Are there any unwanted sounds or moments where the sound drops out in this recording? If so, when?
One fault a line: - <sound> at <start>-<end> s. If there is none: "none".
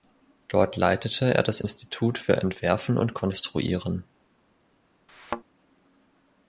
- thud at 5.1-5.4 s